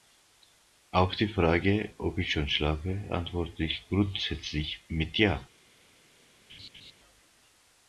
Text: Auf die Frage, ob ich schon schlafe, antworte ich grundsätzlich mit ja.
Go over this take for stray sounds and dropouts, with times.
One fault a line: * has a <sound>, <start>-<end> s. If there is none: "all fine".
* has a laugh, 6.5-6.9 s